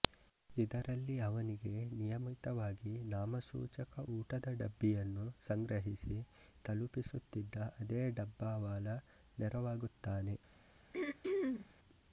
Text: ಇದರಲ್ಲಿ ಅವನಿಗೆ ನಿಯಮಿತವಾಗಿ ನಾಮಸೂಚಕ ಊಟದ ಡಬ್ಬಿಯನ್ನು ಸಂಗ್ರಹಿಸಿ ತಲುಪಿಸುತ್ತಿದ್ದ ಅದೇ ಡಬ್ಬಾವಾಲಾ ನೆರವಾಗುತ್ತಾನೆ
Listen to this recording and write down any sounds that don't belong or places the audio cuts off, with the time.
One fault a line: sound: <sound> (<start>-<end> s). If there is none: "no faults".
sound: throat clearing (10.9-11.7 s)